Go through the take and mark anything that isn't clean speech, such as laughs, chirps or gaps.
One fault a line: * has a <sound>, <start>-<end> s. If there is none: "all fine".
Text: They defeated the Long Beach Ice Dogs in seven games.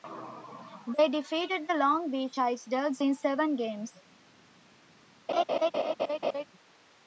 * has a laugh, 5.3-6.4 s